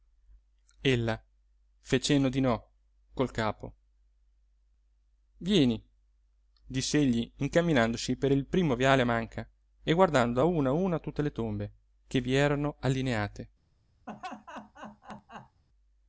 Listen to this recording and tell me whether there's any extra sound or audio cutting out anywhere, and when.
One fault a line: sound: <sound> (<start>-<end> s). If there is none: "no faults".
sound: laugh (14.1-15.6 s)